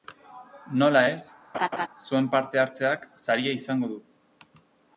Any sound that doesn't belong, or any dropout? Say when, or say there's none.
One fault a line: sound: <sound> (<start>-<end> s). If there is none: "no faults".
sound: laugh (1.5-1.9 s)